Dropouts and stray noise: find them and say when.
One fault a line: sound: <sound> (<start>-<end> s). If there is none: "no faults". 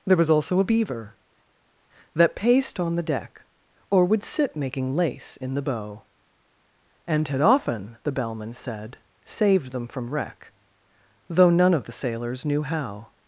no faults